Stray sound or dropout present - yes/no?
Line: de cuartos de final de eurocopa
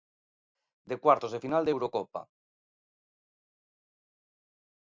no